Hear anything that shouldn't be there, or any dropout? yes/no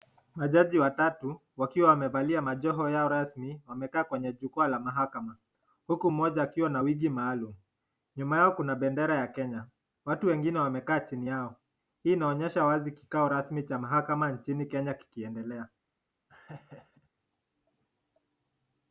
yes